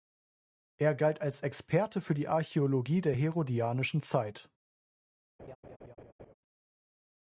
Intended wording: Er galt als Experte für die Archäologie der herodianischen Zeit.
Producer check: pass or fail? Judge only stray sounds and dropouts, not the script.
fail